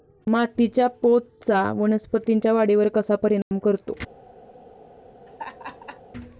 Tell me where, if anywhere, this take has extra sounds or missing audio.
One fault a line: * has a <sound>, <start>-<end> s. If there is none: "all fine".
* has a dropout, 3.4-3.5 s
* has a laugh, 5.3-6.0 s